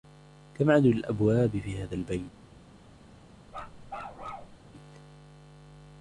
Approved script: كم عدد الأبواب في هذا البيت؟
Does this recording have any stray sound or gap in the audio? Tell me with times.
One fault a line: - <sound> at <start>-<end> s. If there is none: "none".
- bark at 3.5-4.6 s